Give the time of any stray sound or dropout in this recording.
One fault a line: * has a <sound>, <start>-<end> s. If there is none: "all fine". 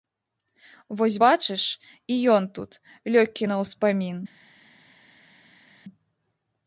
all fine